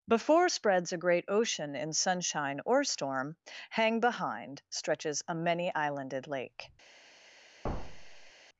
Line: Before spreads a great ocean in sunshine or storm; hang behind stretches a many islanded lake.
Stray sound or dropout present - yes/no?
yes